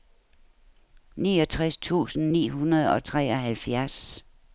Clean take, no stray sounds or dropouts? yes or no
yes